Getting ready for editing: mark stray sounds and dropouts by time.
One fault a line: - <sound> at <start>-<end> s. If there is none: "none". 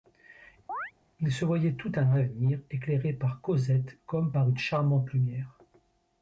- chirp at 0.7-0.9 s